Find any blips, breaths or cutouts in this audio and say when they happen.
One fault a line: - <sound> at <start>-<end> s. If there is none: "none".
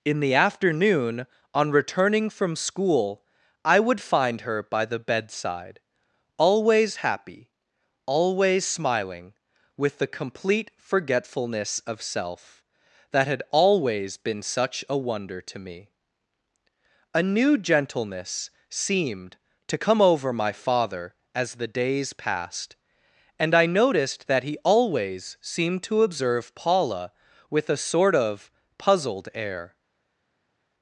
none